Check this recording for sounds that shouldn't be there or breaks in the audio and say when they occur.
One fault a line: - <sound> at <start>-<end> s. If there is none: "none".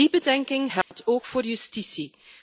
- dropout at 0.8-0.9 s